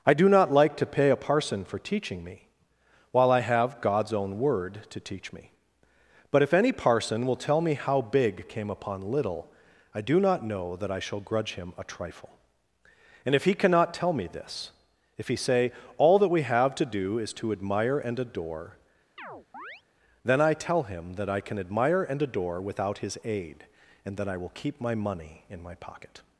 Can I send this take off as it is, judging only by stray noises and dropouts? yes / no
no